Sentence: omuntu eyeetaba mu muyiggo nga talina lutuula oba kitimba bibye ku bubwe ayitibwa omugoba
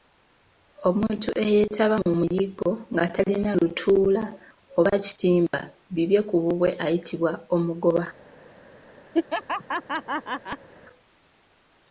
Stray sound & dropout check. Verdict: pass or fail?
fail